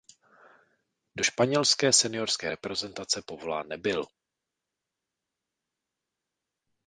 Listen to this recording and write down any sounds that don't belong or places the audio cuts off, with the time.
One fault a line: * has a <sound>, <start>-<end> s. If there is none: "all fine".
all fine